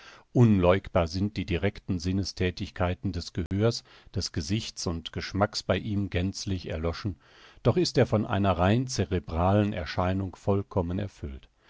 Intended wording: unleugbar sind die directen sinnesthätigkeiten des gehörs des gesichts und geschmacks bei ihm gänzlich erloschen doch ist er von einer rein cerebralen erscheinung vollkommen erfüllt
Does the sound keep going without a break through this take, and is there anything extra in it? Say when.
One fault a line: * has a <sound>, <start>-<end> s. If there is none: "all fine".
* has a dropout, 3.5-3.5 s